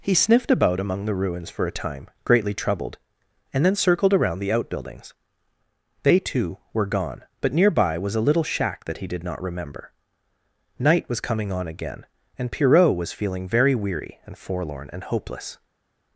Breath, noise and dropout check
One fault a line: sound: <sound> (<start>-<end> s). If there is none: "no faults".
no faults